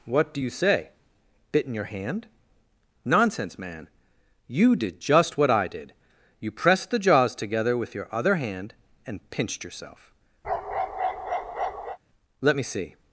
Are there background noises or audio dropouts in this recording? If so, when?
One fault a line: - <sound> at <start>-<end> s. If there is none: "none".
- bark at 10.4-12.0 s